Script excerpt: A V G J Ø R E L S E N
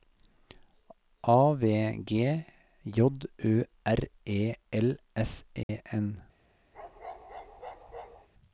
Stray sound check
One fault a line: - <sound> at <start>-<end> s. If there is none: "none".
- dropout at 5.6-5.7 s
- bark at 6.7-8.3 s